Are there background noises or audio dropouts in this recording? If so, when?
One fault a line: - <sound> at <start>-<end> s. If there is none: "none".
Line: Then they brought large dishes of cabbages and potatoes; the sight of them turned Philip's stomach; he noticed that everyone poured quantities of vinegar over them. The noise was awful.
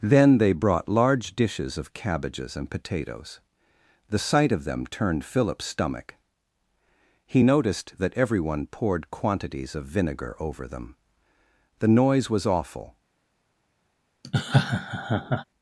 - laugh at 14.2-15.4 s